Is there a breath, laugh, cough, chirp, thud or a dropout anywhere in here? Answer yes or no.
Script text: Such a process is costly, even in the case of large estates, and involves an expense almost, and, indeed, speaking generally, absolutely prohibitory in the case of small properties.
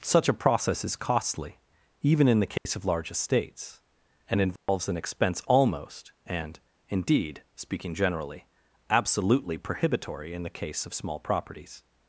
yes